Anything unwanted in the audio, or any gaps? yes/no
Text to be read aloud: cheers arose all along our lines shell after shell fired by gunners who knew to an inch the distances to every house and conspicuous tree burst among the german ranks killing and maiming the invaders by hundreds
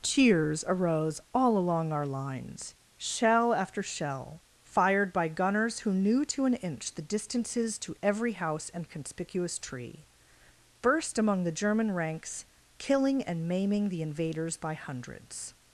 no